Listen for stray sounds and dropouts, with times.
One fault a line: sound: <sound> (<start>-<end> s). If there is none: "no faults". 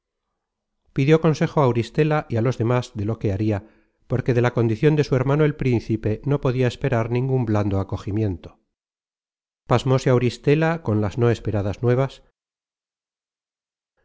no faults